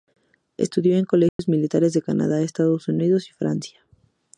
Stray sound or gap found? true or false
true